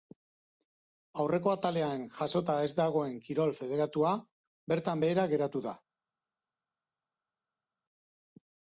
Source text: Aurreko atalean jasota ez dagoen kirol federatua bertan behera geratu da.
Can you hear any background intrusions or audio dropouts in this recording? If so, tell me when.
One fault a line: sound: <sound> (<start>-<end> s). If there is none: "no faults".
no faults